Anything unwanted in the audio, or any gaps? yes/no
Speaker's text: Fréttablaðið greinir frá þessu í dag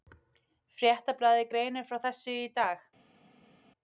no